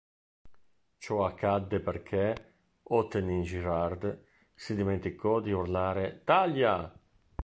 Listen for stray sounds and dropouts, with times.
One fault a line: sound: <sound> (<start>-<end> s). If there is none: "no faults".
no faults